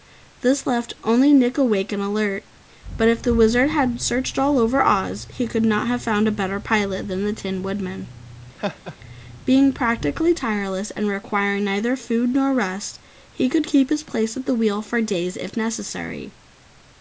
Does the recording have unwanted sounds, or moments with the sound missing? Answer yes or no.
yes